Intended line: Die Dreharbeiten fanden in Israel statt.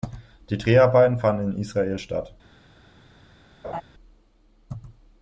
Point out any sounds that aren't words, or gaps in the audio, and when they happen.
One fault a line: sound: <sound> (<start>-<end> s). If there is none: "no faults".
sound: laugh (3.6-3.8 s)